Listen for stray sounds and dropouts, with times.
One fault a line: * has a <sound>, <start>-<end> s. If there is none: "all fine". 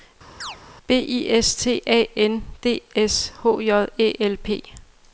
* has a chirp, 0.4-0.6 s